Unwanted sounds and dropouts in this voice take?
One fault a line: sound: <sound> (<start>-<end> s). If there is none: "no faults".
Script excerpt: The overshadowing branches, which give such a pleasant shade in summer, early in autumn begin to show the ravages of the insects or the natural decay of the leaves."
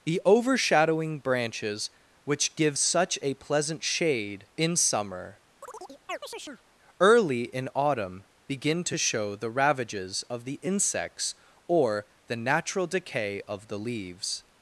sound: chirp (5.6-6.6 s)